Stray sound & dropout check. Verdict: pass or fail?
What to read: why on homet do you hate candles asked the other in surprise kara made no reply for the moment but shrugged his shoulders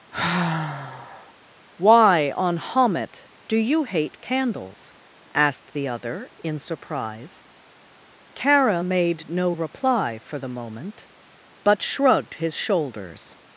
fail